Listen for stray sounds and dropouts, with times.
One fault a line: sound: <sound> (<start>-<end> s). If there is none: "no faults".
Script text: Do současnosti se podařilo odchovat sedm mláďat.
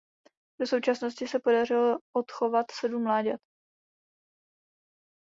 no faults